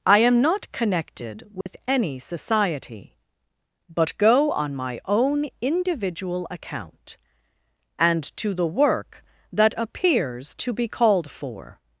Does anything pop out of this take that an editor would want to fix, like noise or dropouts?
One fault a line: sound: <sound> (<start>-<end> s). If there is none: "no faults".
sound: dropout (1.6-1.7 s)